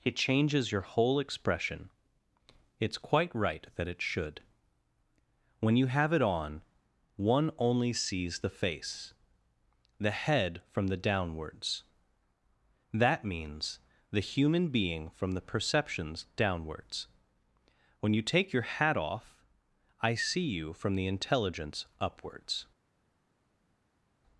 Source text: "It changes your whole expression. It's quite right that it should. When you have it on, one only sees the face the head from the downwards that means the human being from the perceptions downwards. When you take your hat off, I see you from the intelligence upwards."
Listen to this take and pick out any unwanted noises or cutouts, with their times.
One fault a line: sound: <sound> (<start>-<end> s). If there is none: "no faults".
no faults